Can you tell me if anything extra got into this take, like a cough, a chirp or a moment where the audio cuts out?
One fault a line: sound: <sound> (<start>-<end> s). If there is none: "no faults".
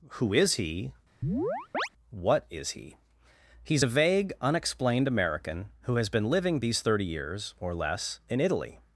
sound: chirp (1.2-1.9 s)